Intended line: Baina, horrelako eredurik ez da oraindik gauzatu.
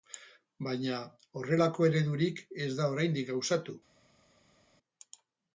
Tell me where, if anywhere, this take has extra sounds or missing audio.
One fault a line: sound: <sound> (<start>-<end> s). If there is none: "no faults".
no faults